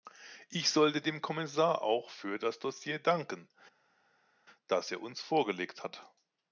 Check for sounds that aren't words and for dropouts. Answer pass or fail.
pass